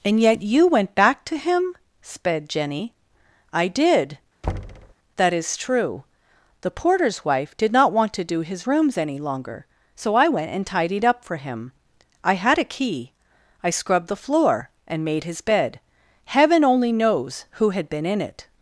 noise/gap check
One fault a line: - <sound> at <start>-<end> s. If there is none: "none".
- thud at 4.4-4.9 s